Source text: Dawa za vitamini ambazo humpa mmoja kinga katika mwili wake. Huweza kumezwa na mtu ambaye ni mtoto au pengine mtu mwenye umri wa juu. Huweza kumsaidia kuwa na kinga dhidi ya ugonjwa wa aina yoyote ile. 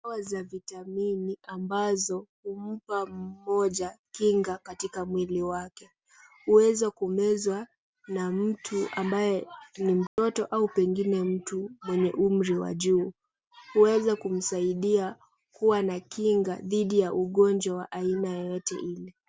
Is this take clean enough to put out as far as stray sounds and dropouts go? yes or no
no